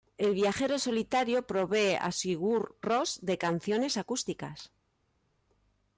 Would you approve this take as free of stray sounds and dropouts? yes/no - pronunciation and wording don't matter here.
yes